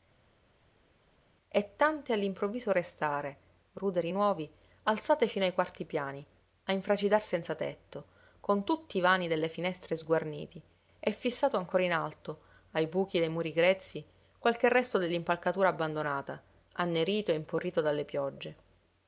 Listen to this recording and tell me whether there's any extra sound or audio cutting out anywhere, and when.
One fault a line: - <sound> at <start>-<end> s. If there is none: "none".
none